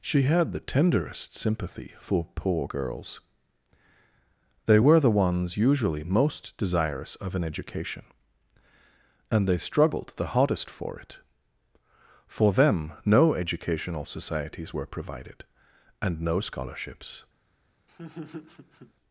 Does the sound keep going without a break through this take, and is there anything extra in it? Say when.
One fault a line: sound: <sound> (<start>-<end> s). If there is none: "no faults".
sound: laugh (17.9-18.9 s)